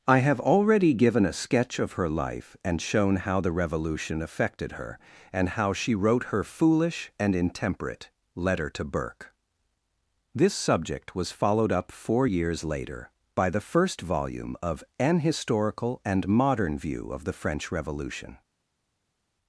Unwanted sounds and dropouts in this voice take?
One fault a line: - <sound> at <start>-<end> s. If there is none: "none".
none